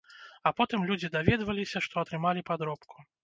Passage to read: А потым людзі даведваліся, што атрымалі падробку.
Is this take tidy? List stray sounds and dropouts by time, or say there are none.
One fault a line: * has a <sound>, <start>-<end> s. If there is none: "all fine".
all fine